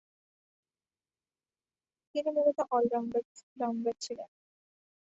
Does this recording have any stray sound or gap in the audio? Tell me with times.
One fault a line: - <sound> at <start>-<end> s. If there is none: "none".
none